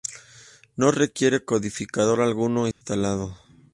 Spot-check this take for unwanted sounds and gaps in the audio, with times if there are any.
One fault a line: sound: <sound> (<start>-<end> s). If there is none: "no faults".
sound: dropout (2.7-2.8 s)